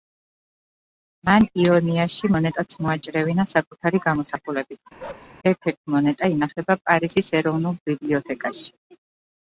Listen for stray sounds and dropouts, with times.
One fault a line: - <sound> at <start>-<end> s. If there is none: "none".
- bark at 5.0-5.3 s